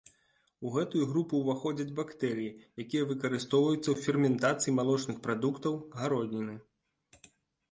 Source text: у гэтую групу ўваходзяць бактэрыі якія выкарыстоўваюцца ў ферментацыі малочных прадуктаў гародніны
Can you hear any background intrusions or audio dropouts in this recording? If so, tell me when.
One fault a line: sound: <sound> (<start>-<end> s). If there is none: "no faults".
no faults